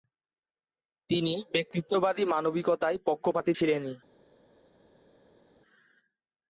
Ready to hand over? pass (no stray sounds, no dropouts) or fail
pass